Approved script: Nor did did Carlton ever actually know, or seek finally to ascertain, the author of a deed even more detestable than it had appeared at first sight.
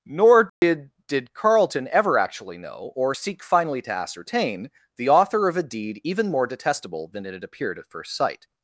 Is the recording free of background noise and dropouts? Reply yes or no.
no